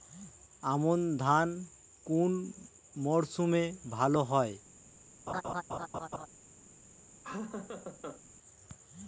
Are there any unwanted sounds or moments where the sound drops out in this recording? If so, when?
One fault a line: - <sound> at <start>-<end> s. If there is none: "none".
- laugh at 5.3-6.3 s
- laugh at 7.2-8.2 s